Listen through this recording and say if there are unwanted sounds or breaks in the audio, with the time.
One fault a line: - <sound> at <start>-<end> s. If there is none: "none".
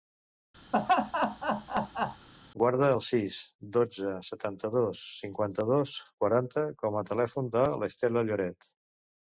- laugh at 0.7-2.3 s